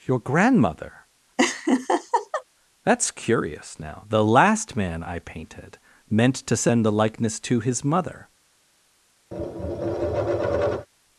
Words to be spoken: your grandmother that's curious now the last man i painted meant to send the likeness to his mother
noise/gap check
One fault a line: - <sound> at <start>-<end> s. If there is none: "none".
- laugh at 1.4-2.4 s
- tap at 9.3-10.9 s